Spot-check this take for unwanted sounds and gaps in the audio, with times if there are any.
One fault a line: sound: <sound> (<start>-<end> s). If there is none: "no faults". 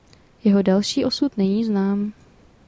no faults